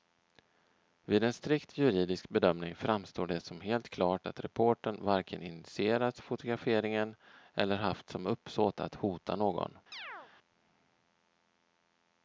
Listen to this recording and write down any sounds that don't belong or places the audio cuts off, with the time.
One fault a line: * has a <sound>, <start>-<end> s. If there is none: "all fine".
* has a chirp, 9.9-10.3 s